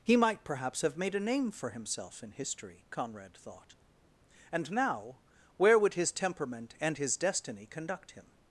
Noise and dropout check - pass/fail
pass